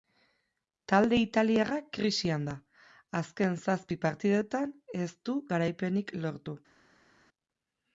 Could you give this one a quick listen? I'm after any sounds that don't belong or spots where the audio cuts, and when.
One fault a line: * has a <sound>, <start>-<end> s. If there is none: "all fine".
all fine